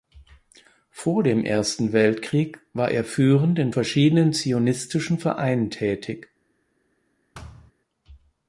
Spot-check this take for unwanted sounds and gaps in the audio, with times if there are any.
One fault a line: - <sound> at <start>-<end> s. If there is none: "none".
- thud at 7.3-7.7 s